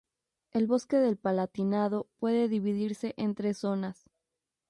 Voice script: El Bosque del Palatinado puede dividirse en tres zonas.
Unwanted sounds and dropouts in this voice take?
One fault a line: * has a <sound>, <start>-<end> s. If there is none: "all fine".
all fine